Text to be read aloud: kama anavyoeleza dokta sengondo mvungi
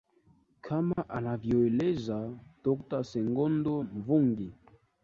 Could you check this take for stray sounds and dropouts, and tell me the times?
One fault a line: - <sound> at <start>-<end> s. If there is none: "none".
- dropout at 0.9-1.0 s